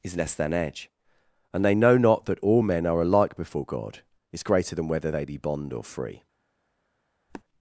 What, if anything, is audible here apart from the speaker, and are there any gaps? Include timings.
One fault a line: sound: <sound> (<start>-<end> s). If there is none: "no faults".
sound: sniff (7.3-7.4 s)